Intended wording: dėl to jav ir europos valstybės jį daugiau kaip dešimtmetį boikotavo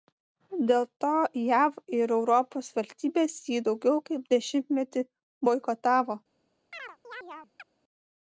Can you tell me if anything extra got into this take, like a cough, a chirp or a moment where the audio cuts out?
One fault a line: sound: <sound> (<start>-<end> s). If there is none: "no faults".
sound: chirp (6.7-7.7 s)